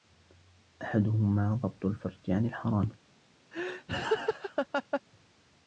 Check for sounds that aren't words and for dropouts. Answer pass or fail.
fail